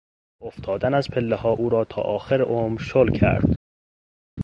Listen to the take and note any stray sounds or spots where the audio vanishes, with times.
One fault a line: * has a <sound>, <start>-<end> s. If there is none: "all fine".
all fine